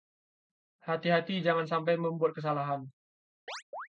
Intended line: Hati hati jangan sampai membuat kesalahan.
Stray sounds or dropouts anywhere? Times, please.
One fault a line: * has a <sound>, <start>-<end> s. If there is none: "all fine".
* has a chirp, 3.5-3.9 s